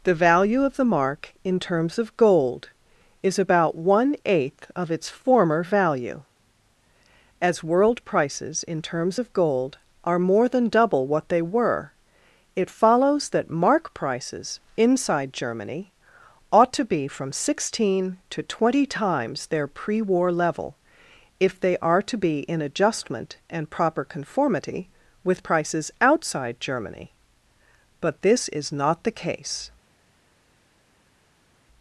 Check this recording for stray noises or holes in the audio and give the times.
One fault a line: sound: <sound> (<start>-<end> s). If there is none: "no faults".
no faults